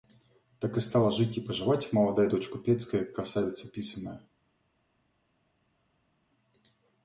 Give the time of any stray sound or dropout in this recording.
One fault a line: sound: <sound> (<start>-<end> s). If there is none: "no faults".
no faults